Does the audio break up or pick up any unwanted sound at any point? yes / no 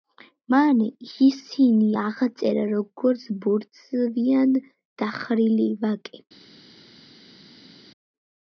no